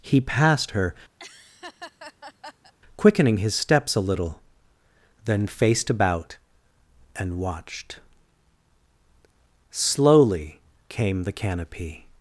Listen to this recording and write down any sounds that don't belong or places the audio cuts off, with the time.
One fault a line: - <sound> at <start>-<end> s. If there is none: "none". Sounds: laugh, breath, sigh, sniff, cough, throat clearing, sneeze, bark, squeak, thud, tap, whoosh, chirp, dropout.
- laugh at 1.2-2.7 s